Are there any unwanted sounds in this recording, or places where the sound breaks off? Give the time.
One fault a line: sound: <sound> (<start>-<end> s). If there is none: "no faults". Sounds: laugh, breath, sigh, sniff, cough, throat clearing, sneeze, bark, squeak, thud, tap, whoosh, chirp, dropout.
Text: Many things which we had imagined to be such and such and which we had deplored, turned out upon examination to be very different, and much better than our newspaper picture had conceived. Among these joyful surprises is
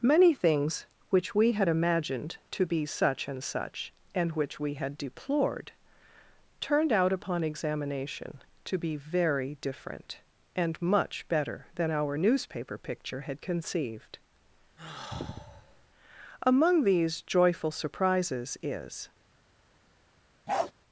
sound: sigh (14.8-15.9 s)
sound: bark (20.5-20.7 s)